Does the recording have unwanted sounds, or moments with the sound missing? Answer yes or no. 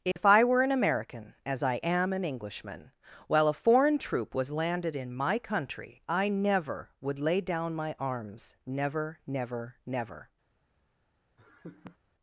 yes